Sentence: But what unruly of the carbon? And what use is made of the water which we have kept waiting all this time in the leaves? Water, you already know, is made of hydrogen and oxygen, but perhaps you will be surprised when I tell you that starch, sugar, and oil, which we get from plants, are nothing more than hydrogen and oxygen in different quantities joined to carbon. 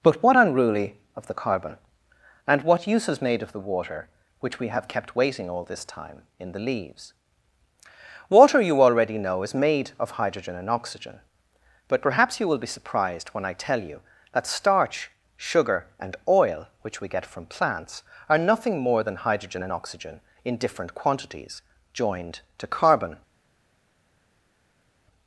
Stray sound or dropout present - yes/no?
no